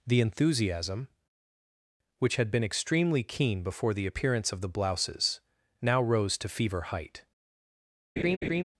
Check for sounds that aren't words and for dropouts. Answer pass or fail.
fail